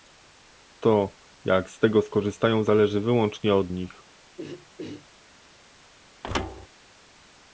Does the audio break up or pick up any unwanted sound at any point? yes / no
yes